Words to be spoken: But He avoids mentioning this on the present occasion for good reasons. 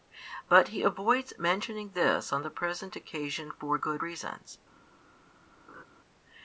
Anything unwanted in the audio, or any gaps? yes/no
yes